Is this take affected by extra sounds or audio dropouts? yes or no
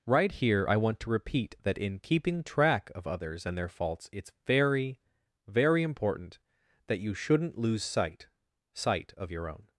no